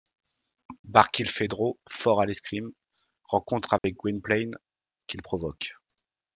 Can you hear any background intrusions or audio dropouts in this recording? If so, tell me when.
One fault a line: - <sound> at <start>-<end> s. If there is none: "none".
- dropout at 3.8-3.8 s